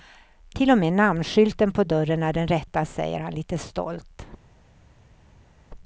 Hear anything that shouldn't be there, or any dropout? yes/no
no